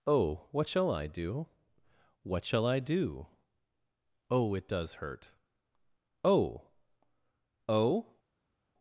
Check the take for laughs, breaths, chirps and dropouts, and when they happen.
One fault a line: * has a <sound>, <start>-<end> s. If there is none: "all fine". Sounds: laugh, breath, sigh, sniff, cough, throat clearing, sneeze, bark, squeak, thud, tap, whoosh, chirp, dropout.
all fine